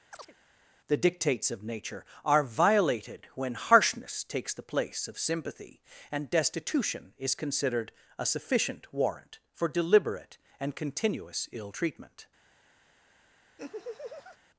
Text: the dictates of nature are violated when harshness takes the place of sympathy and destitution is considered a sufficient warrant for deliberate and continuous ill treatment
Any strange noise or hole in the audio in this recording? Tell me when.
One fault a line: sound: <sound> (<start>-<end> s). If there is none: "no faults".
sound: chirp (0.1-0.3 s)
sound: laugh (13.6-14.4 s)